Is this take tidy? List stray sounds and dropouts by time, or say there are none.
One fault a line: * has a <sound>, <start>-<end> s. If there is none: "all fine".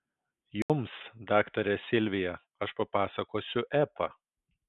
* has a dropout, 0.6-0.7 s